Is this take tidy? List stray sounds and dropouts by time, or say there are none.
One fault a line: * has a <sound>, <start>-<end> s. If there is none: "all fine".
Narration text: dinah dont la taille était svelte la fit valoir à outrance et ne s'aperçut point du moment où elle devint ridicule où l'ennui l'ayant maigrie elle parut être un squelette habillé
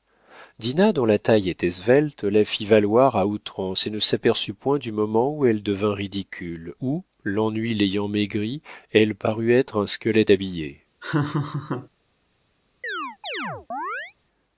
* has a laugh, 11.0-11.9 s
* has a chirp, 12.8-14.1 s